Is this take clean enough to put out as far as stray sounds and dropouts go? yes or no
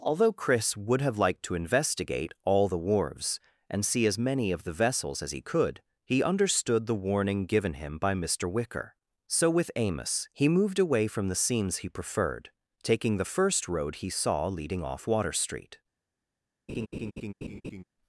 no